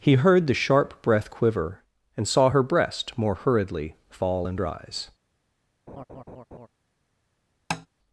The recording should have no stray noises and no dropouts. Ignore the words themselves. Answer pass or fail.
fail